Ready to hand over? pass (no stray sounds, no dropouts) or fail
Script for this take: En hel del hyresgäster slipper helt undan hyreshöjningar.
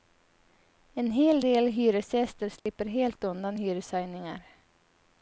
fail